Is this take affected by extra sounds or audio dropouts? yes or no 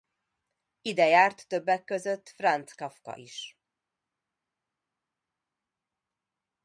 no